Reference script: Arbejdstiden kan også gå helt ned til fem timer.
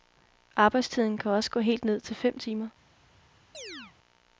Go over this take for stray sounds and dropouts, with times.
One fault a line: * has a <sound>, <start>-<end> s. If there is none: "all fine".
* has a chirp, 3.5-3.9 s